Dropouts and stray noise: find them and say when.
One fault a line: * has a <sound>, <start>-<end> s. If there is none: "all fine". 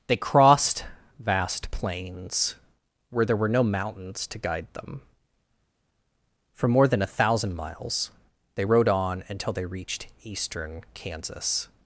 all fine